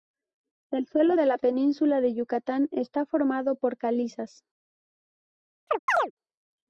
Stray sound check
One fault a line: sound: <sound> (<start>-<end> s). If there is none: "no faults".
sound: chirp (5.7-6.1 s)